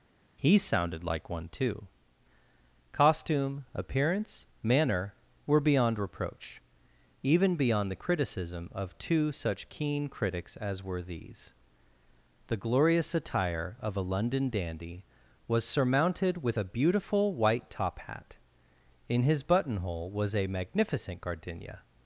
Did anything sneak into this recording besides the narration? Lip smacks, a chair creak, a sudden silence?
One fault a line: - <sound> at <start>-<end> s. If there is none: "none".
none